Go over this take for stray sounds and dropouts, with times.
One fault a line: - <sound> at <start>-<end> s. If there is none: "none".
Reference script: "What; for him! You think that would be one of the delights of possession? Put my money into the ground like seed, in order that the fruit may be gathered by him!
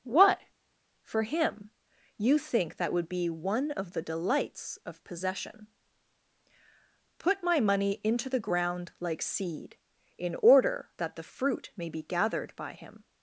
none